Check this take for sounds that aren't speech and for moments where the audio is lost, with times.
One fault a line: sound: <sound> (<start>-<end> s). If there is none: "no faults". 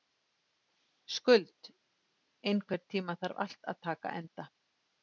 no faults